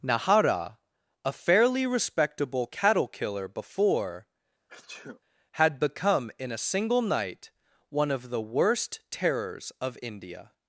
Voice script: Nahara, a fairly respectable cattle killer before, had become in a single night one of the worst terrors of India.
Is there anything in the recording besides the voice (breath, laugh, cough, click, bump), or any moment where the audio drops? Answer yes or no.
yes